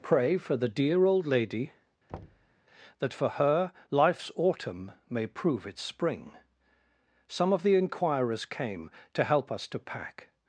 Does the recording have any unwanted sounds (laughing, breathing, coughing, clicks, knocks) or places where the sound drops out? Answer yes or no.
yes